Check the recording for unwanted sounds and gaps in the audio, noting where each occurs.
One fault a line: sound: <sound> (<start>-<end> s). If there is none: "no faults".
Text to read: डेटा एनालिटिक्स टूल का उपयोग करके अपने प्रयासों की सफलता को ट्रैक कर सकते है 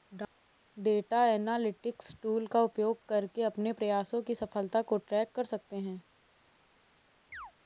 sound: chirp (7.3-7.5 s)